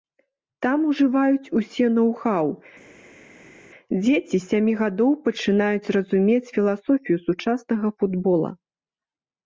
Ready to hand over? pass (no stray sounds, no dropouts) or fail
pass